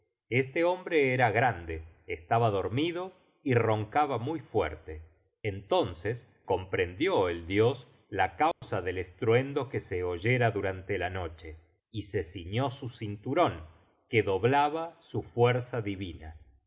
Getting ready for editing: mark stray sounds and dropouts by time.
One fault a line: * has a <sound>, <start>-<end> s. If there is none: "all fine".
* has a dropout, 8.5-8.6 s